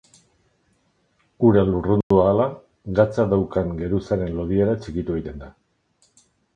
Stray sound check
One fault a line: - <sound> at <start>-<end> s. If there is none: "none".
- dropout at 2.0-2.1 s